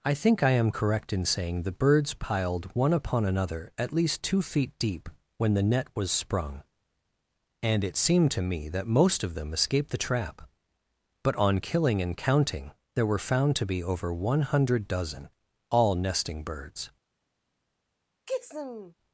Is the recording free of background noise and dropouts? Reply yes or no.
no